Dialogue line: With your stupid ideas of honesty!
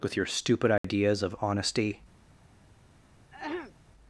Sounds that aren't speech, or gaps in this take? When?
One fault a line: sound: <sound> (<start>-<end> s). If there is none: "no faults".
sound: dropout (0.8-0.8 s)
sound: throat clearing (3.3-3.7 s)